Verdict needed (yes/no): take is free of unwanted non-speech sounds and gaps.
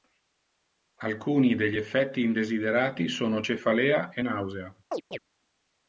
no